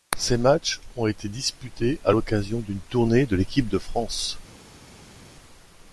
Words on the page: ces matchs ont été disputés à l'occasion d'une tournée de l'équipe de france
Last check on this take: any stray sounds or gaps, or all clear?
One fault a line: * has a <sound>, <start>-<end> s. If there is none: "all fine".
all fine